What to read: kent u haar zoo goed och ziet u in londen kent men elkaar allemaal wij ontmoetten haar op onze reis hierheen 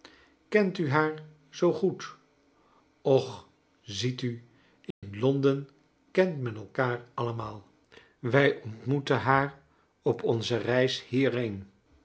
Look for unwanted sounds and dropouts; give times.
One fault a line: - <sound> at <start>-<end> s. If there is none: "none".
- dropout at 4.9-5.0 s